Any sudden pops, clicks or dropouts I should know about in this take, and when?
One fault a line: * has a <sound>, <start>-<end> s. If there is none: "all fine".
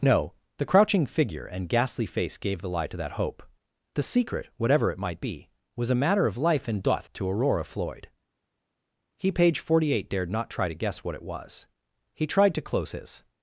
all fine